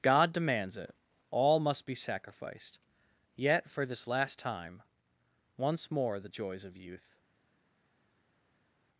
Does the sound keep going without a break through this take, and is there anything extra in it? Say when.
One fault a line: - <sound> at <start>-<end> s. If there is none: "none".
none